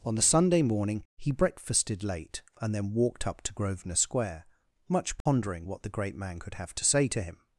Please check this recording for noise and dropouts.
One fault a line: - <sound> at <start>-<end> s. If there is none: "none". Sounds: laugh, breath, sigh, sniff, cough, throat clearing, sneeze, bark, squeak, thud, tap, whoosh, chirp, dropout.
- dropout at 5.2-5.3 s